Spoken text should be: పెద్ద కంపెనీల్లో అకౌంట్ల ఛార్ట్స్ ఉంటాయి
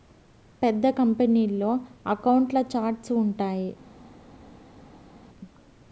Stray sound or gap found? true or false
false